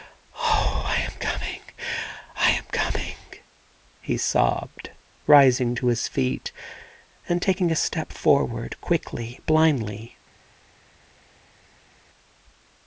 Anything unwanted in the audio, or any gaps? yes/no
no